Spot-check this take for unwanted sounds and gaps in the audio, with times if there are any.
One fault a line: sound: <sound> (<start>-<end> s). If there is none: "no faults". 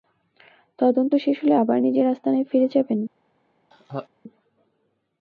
sound: laugh (3.7-4.1 s)